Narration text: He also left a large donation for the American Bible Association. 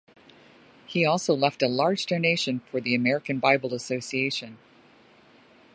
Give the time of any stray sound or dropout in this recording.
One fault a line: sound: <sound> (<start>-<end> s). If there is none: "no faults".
no faults